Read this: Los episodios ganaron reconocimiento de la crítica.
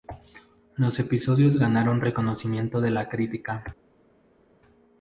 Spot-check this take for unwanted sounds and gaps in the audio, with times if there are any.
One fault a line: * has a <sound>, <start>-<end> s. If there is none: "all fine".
all fine